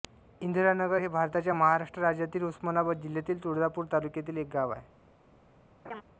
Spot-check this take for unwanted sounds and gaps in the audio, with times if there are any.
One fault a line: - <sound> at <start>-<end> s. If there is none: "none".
- laugh at 5.8-6.0 s